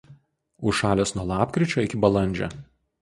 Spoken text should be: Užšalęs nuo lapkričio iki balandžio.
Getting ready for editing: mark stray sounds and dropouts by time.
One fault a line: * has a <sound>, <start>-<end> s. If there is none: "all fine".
all fine